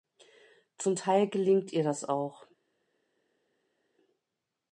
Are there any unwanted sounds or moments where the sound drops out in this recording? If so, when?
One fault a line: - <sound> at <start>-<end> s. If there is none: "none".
none